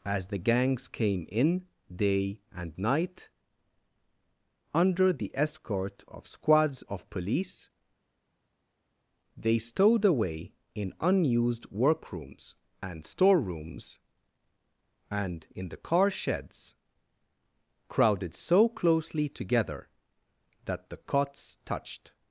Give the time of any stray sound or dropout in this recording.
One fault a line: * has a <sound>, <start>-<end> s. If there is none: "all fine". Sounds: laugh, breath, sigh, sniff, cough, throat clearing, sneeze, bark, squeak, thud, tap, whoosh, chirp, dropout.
all fine